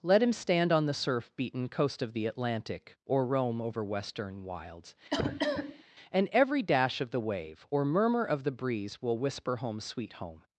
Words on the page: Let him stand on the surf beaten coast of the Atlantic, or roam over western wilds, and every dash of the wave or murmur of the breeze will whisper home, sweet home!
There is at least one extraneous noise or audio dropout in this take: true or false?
true